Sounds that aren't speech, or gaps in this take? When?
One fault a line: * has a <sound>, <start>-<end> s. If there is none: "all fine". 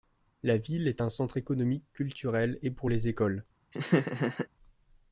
* has a laugh, 3.7-4.5 s